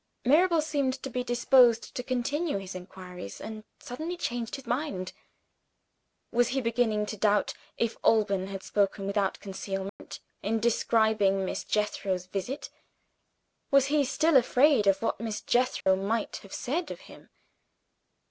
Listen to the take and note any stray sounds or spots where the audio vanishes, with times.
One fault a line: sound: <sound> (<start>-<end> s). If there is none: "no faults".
sound: dropout (9.9-10.0 s)
sound: dropout (15.8-15.9 s)